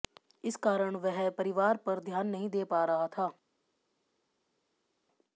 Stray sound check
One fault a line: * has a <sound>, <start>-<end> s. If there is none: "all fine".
all fine